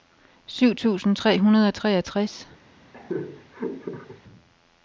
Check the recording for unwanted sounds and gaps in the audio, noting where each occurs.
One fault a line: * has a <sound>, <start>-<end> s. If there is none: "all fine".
* has a laugh, 2.9-4.2 s